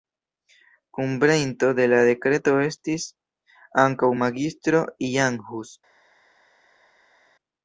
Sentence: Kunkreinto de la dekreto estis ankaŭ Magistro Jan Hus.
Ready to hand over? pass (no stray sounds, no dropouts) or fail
pass